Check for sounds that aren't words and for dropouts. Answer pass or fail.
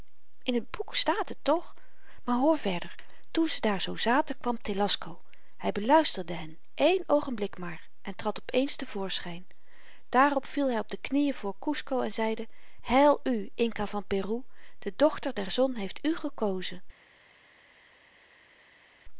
pass